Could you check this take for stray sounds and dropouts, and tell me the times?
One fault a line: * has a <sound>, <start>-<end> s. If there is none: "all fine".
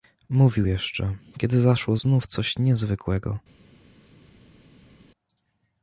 all fine